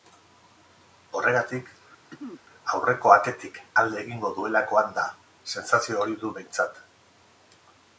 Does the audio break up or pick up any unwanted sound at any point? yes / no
yes